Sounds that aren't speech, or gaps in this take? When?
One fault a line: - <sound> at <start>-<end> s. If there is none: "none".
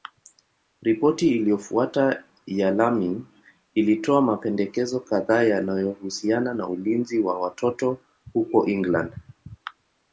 none